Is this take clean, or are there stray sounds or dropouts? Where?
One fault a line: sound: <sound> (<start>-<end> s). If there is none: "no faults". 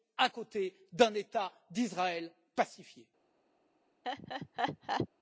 sound: laugh (4.0-5.1 s)